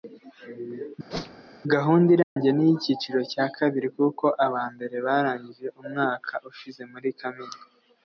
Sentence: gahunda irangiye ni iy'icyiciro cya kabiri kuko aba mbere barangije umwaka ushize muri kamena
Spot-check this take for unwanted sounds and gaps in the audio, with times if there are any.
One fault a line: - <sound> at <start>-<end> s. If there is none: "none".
- whoosh at 1.1-1.5 s
- dropout at 2.2-2.4 s